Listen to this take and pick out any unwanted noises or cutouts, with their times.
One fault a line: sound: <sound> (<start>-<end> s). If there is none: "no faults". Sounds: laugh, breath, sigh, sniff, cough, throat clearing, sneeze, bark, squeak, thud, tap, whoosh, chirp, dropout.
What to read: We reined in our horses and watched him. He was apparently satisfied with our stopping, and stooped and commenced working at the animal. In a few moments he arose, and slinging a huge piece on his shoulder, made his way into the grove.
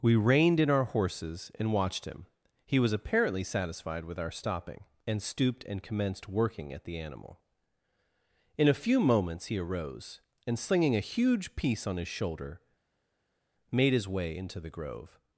no faults